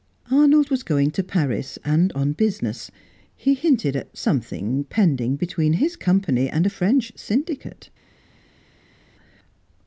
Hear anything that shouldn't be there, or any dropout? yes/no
no